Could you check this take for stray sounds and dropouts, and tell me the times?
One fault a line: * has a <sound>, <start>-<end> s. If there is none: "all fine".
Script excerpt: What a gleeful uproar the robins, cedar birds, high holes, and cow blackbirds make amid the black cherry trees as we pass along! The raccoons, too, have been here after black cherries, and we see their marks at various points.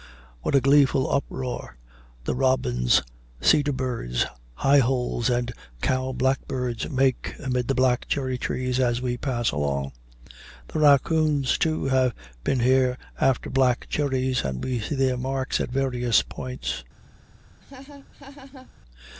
* has a laugh, 17.6-18.7 s